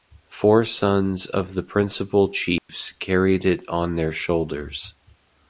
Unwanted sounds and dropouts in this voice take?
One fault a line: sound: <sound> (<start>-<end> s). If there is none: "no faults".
sound: dropout (2.6-2.7 s)